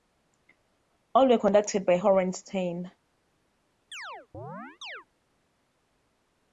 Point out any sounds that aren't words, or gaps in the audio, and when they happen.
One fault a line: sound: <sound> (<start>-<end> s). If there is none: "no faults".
sound: chirp (3.9-5.1 s)